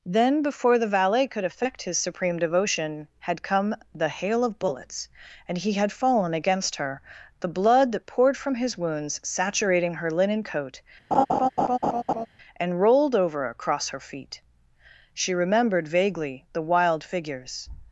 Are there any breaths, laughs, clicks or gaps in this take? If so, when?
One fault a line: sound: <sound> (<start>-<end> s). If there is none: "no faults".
sound: laugh (11.1-12.3 s)